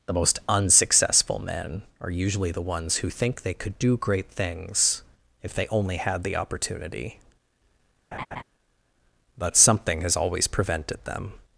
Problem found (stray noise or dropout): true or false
true